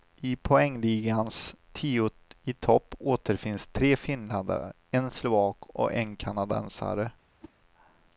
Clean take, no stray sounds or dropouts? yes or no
no